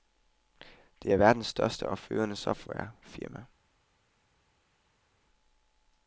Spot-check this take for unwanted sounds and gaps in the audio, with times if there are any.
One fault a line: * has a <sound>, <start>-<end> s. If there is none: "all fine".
all fine